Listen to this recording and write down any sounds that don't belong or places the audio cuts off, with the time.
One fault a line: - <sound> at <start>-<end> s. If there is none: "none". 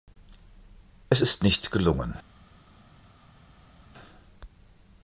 none